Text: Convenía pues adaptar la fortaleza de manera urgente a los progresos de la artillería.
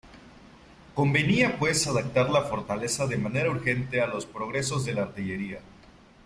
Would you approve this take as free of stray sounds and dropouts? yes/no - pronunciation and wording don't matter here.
yes